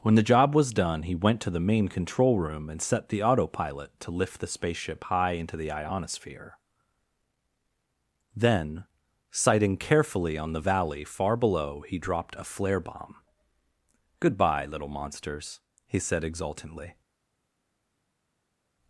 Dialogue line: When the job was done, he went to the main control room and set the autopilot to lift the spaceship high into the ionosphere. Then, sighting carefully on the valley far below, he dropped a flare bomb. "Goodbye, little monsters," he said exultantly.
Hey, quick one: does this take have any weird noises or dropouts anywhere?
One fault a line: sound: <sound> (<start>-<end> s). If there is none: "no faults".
no faults